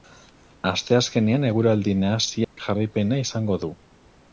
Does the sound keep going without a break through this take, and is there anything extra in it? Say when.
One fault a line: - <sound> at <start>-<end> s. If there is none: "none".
- dropout at 2.4-2.6 s